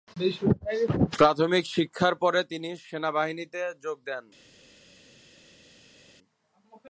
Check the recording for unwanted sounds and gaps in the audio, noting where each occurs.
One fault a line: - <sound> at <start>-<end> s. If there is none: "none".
none